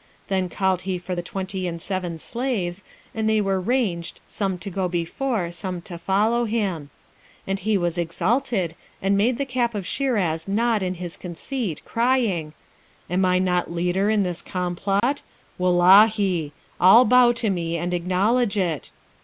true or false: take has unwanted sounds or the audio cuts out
true